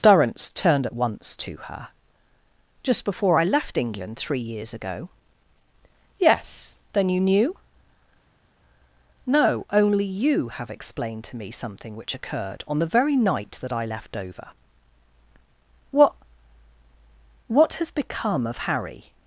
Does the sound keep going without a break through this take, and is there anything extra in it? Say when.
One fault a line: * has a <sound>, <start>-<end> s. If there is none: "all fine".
all fine